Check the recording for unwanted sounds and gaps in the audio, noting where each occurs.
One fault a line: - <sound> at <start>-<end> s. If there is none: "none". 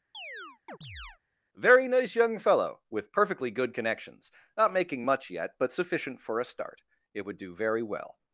- chirp at 0.1-1.2 s